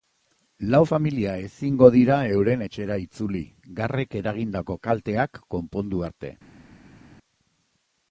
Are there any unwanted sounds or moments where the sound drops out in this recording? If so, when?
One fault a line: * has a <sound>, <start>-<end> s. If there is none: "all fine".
all fine